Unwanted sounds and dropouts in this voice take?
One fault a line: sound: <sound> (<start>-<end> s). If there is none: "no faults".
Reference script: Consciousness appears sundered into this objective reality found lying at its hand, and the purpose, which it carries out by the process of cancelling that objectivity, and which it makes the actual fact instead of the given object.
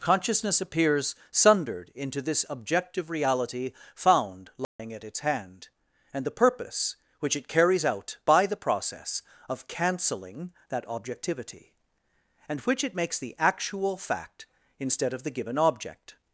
sound: dropout (4.6-4.8 s)